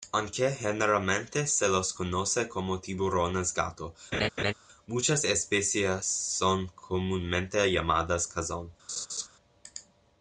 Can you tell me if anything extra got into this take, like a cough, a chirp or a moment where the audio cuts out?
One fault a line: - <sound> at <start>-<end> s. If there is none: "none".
- laugh at 4.1-4.5 s
- laugh at 8.9-9.3 s